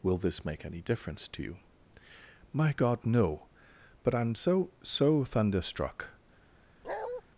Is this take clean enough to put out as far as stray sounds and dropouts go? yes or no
no